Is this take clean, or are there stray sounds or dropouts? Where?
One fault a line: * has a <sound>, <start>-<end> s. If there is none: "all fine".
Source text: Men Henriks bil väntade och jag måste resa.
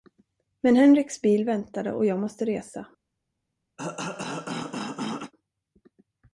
* has a cough, 3.8-5.3 s